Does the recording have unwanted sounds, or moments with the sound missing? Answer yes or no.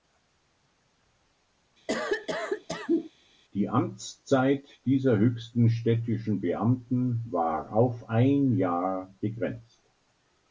yes